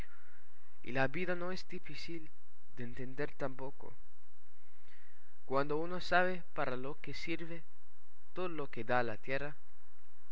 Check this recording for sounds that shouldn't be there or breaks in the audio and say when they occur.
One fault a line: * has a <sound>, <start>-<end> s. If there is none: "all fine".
all fine